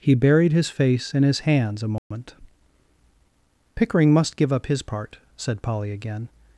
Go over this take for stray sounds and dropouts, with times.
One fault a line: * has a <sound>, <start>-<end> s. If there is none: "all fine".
* has a dropout, 2.0-2.1 s